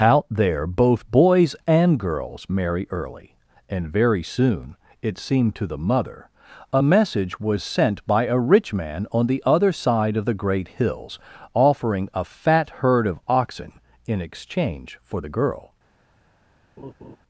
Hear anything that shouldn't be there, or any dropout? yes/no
yes